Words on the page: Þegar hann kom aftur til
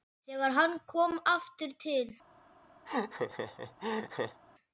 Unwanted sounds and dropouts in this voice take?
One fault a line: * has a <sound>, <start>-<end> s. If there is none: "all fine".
* has a laugh, 2.9-4.4 s